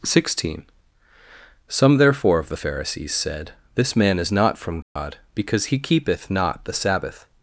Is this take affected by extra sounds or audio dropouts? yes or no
yes